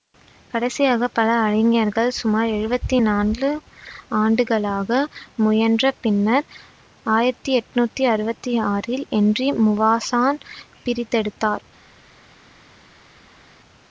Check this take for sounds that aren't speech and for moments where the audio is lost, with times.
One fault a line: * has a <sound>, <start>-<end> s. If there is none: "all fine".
all fine